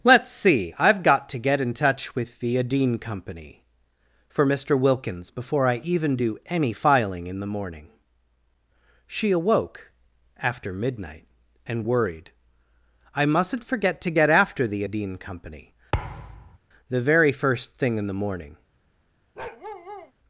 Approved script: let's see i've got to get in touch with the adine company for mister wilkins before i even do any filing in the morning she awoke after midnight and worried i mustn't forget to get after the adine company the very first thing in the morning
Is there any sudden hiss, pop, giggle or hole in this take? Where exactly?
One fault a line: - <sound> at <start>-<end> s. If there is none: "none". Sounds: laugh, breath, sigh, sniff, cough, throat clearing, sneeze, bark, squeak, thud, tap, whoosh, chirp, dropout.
- thud at 15.9-16.6 s
- bark at 19.4-20.1 s